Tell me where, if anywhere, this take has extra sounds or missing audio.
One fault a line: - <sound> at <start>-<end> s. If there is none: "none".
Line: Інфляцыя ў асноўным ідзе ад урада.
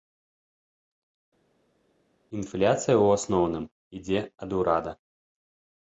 none